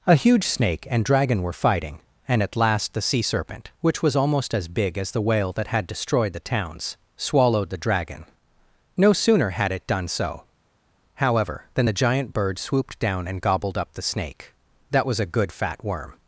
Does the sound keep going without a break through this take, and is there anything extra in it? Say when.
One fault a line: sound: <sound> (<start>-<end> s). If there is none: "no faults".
no faults